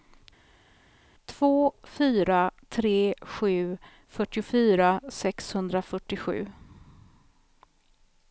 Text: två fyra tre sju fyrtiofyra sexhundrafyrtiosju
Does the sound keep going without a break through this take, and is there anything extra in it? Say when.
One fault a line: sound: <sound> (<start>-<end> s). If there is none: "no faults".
no faults